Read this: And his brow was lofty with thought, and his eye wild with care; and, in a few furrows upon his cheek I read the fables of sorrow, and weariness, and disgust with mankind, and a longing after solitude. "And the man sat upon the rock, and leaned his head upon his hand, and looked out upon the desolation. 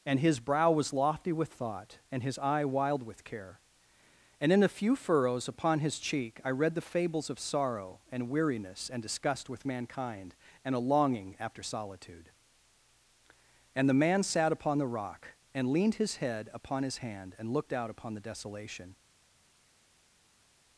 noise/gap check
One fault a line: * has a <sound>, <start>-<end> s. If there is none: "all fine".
all fine